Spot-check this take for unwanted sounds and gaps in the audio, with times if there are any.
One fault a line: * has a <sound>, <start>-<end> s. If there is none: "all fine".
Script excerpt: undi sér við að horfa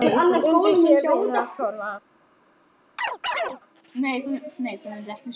* has a chirp, 3.0-3.6 s